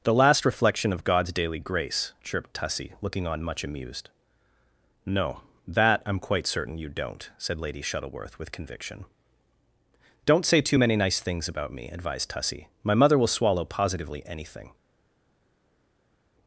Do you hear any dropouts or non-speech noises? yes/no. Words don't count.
no